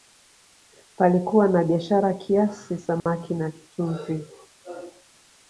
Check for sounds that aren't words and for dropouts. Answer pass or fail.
fail